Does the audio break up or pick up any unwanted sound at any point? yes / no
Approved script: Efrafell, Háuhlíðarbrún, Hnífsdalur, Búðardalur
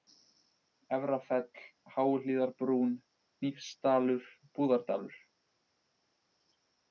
no